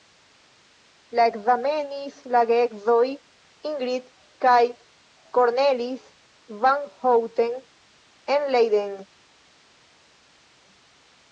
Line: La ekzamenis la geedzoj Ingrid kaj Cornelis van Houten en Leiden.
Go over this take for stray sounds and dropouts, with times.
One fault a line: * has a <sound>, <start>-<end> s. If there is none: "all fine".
all fine